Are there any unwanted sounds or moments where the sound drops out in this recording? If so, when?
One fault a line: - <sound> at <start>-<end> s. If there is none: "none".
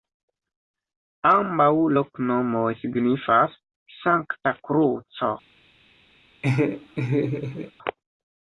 - laugh at 6.4-7.7 s